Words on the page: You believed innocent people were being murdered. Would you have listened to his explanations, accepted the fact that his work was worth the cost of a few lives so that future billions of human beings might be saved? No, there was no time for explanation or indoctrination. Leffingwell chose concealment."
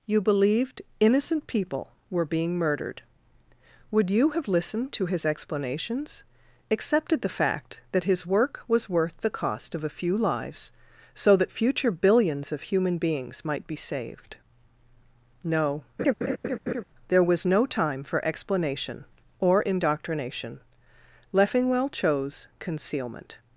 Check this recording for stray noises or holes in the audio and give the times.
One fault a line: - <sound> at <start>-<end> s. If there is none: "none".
- laugh at 16.0-16.8 s